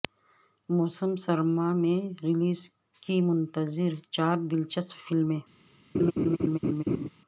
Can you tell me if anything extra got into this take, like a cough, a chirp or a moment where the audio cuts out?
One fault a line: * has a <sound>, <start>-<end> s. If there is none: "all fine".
* has a laugh, 5.9-7.1 s